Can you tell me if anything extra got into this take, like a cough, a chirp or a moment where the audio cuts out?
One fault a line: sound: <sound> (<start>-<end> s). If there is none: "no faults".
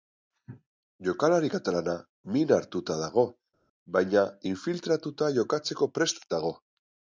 no faults